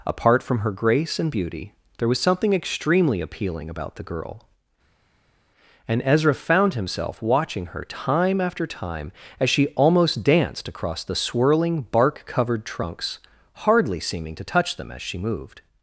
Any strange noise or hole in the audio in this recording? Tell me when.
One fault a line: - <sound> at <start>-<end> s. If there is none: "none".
none